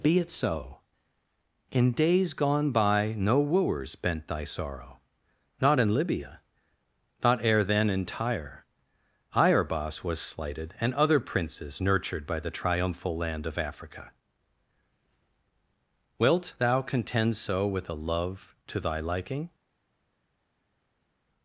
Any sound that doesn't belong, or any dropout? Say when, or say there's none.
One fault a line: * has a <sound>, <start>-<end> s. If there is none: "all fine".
all fine